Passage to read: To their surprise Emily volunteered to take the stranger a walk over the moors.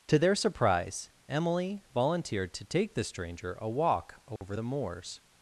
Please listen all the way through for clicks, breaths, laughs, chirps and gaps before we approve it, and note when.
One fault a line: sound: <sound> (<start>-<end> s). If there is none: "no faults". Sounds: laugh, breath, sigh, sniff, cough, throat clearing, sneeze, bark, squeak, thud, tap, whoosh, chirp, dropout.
sound: dropout (4.4-4.4 s)